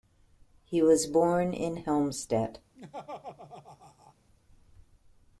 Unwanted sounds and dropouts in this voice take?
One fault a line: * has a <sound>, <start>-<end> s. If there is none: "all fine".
* has a laugh, 2.7-4.1 s